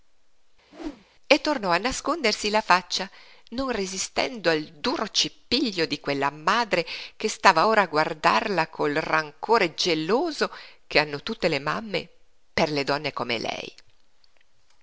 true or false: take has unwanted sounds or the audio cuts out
true